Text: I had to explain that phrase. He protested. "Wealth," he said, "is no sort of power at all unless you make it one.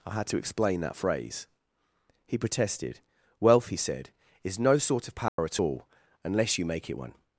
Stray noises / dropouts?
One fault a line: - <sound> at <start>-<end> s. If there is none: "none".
- dropout at 5.3-5.4 s